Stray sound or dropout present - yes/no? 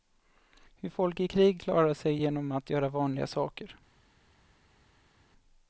no